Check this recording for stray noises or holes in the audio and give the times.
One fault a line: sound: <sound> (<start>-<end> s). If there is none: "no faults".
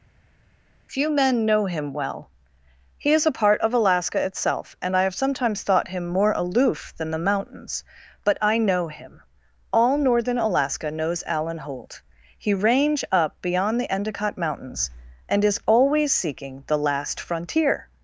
no faults